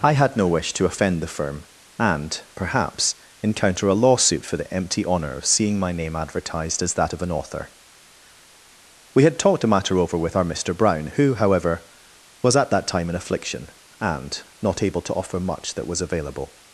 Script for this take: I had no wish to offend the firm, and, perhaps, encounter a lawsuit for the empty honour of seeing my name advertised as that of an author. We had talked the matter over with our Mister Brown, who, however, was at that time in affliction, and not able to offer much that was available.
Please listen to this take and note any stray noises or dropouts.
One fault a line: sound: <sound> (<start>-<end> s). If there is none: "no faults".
no faults